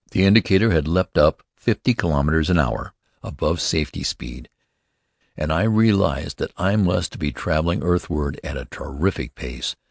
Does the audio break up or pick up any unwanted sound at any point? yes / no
no